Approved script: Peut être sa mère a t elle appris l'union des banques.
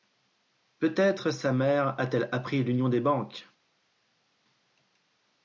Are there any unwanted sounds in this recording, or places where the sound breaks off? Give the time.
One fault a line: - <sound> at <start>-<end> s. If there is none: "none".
none